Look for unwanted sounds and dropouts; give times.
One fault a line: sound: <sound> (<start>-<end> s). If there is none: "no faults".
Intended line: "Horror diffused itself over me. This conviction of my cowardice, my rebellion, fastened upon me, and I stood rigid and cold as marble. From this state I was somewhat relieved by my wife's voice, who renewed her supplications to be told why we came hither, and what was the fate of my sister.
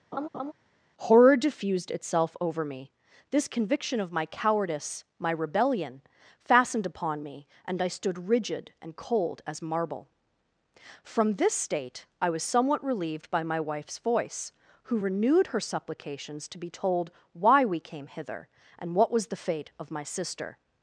sound: laugh (0.1-0.5 s)